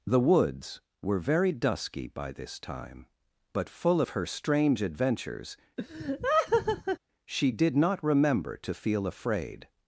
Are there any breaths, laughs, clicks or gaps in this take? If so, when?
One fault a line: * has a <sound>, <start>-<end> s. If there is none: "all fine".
* has a laugh, 5.8-7.0 s